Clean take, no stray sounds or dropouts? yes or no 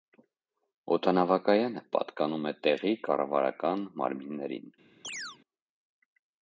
no